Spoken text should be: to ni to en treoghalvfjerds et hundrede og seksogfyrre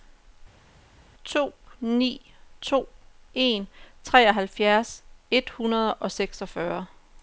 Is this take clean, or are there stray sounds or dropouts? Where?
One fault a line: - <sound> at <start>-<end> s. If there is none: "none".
none